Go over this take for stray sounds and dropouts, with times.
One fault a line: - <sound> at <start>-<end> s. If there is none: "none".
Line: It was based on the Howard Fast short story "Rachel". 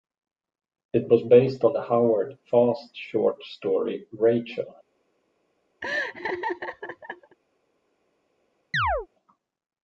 - laugh at 5.8-7.4 s
- chirp at 8.7-9.1 s